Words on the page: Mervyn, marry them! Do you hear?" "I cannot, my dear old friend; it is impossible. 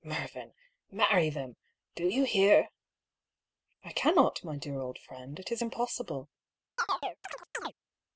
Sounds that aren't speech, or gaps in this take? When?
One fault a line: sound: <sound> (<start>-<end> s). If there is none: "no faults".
sound: chirp (6.8-7.7 s)